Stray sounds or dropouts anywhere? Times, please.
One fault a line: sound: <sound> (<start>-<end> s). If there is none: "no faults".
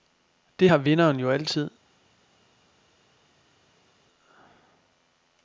no faults